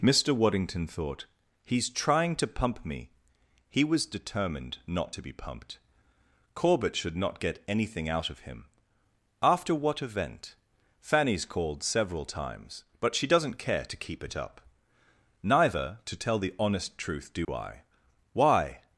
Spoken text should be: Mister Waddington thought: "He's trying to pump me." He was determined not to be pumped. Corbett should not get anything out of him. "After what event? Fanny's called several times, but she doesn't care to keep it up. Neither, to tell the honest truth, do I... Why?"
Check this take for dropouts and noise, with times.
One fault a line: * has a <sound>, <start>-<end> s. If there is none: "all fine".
* has a dropout, 17.4-17.5 s